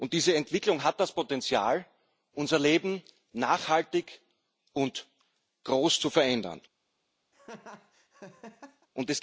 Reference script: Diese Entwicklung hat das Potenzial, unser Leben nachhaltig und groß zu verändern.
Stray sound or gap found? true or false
true